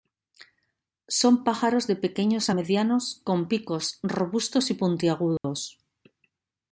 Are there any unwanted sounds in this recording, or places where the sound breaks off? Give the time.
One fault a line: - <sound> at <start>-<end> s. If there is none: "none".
- dropout at 5.4-5.4 s